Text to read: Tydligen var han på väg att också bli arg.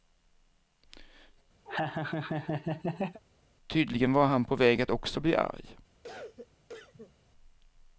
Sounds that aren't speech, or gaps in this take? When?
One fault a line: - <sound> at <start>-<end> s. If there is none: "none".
- laugh at 1.7-3.2 s
- cough at 6.0-7.2 s